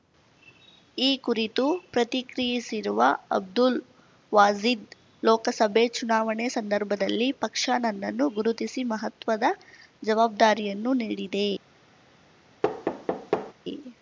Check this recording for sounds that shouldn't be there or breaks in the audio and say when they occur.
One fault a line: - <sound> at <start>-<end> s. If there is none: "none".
- thud at 12.6-13.5 s